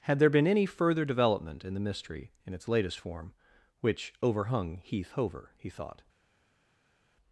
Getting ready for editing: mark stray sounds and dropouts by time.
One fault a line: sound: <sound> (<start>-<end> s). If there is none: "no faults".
no faults